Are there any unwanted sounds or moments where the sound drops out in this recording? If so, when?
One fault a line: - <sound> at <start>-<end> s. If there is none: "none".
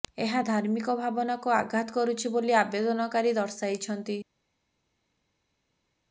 none